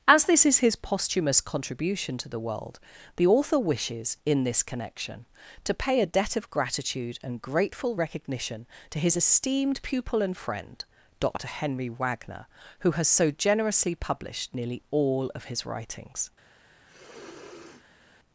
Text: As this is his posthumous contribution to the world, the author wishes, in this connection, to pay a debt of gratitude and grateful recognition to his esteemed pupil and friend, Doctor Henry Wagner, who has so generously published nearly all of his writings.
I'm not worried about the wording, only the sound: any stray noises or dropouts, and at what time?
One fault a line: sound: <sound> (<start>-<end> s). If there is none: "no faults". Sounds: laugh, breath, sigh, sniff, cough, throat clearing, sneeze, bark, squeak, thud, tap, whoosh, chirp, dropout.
sound: sniff (16.9-18.2 s)